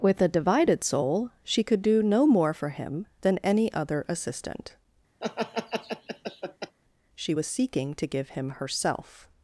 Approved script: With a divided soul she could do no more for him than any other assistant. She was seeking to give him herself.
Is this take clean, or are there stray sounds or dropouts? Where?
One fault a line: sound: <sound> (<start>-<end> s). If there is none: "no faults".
sound: laugh (5.2-6.8 s)